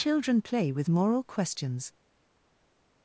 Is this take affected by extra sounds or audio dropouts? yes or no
no